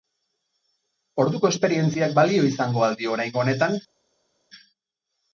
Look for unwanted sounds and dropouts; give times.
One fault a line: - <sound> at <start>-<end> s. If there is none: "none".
none